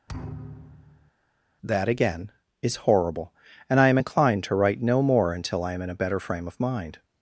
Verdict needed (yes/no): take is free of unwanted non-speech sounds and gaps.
no